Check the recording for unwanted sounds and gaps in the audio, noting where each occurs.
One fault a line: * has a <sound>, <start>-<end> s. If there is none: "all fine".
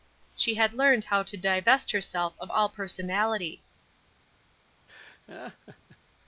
* has a laugh, 4.9-6.0 s